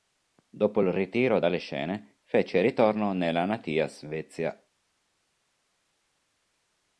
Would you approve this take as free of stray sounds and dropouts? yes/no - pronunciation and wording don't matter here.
yes